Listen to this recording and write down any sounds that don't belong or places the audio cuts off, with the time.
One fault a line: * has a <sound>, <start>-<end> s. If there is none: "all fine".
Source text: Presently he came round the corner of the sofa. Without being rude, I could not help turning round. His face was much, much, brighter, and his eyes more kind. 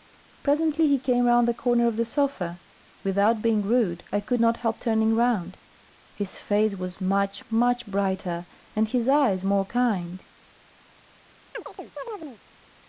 * has a chirp, 11.5-12.4 s